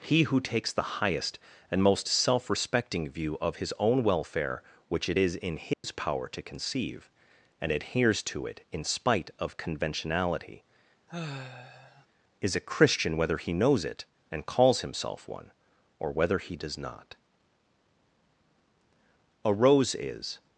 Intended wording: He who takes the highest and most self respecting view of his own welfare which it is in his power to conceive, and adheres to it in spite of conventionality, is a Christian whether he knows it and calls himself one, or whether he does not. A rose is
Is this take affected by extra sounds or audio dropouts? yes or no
yes